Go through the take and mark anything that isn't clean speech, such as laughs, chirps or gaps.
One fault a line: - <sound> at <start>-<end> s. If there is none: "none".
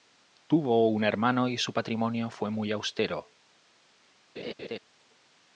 - laugh at 4.4-4.8 s